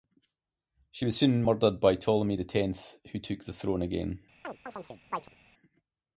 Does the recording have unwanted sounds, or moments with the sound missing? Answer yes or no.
yes